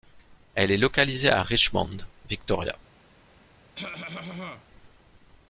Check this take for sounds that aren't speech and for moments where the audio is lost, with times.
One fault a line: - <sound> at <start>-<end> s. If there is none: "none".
- cough at 3.7-4.7 s